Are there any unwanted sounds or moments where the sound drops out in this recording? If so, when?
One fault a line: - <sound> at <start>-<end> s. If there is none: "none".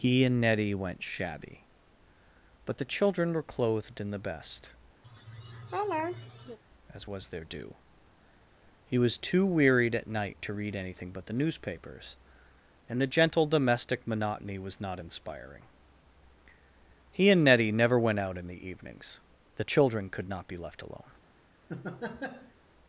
- laugh at 5.0-6.6 s
- laugh at 21.7-22.5 s